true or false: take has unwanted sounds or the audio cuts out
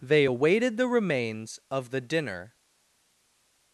false